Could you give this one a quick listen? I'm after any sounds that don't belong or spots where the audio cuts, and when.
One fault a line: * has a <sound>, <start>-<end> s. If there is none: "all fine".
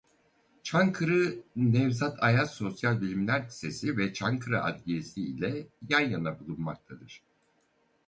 all fine